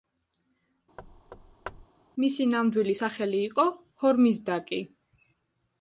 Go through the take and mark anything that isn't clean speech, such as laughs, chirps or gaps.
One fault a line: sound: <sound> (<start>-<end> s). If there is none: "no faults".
sound: thud (1.0-1.9 s)